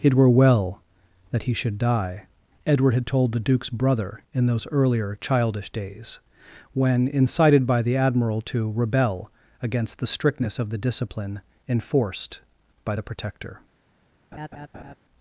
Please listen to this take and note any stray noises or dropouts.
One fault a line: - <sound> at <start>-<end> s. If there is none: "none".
- laugh at 14.3-15.0 s